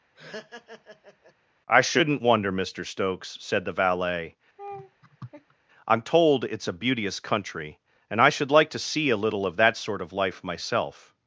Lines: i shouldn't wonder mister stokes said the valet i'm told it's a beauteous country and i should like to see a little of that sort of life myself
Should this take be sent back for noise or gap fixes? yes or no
yes